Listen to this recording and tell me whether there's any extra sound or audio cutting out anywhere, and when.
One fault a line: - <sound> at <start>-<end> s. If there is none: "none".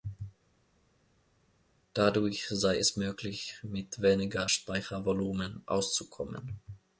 none